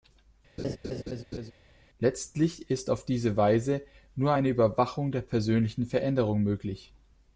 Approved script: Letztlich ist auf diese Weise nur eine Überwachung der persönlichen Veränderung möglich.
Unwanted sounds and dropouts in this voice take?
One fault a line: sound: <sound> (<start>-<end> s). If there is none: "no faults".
sound: laugh (0.6-1.5 s)